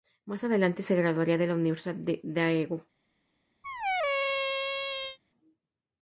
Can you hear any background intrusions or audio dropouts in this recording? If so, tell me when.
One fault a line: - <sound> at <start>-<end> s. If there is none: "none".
- squeak at 3.6-5.2 s